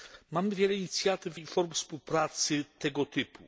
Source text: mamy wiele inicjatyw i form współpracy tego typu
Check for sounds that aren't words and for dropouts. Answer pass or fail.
pass